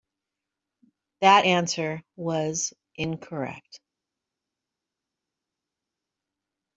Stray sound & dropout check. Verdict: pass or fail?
pass